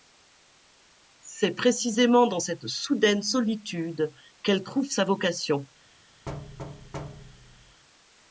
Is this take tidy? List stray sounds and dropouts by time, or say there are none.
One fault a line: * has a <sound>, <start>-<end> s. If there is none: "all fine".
* has a thud, 6.3-7.8 s